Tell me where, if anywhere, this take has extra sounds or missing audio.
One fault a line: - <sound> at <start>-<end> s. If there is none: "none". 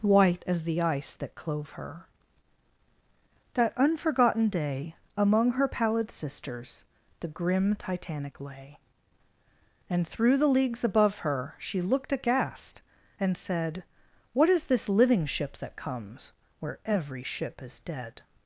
none